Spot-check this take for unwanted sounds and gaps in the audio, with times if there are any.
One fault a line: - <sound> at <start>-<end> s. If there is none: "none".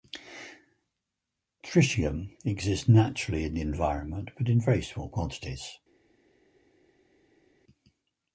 none